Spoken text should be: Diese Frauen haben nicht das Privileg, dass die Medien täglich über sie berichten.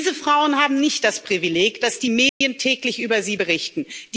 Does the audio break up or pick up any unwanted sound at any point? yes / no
yes